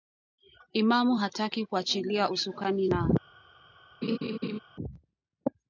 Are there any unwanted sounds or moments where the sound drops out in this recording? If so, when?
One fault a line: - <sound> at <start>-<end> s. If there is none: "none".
- laugh at 4.0-4.6 s